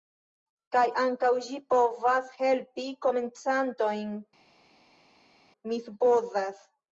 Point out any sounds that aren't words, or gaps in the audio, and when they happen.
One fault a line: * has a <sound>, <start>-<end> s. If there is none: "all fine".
all fine